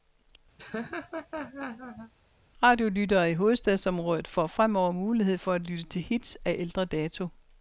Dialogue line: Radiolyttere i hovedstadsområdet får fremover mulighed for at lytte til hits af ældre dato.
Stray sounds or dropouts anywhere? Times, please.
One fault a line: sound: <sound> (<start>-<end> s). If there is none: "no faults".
sound: laugh (0.6-2.1 s)